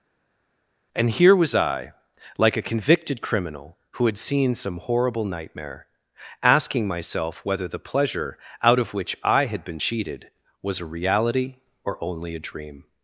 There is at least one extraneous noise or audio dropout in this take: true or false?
false